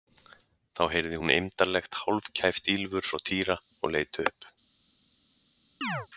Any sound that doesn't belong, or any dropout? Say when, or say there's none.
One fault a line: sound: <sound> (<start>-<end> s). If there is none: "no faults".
sound: chirp (5.8-6.1 s)